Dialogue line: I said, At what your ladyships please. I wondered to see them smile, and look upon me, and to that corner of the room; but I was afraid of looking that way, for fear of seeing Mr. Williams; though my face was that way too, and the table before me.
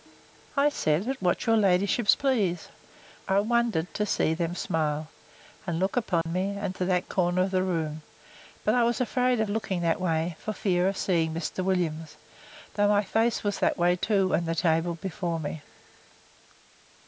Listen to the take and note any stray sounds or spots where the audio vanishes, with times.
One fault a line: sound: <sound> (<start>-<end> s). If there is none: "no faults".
sound: dropout (6.2-6.3 s)